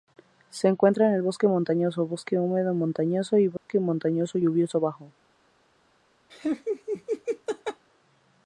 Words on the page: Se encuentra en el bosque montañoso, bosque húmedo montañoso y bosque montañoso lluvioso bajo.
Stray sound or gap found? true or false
true